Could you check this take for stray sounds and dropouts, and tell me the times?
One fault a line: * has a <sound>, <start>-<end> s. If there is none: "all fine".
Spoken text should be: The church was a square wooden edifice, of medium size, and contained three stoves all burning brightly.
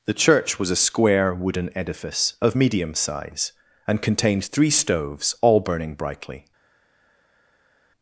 all fine